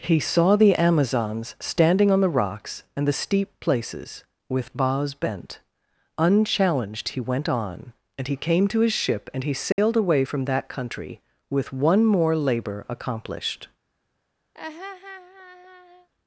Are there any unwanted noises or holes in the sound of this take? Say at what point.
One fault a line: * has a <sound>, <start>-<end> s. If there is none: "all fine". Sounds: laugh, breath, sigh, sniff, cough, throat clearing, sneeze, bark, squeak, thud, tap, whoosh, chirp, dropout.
* has a dropout, 9.7-9.8 s
* has a laugh, 14.5-16.1 s